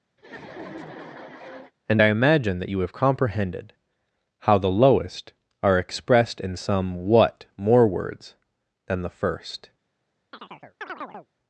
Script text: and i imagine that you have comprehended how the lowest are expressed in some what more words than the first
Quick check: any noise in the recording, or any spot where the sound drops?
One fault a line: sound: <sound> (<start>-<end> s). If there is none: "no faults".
sound: laugh (0.2-1.7 s)
sound: chirp (10.3-11.3 s)